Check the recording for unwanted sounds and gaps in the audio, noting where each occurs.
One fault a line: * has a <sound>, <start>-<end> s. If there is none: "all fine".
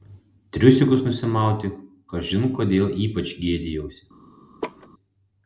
* has a laugh, 4.6-4.9 s